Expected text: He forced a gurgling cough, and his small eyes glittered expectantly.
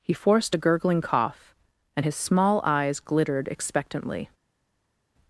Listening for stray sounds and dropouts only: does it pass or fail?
pass